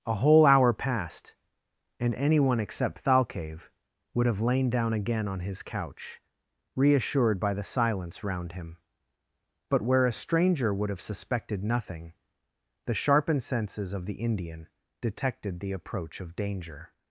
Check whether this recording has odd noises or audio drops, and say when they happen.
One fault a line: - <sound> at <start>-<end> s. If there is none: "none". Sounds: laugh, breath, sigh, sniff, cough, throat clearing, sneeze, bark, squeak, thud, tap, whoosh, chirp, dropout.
none